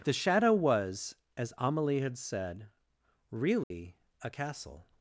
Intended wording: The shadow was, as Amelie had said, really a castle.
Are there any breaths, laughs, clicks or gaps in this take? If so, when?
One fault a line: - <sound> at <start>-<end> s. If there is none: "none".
- dropout at 3.6-3.7 s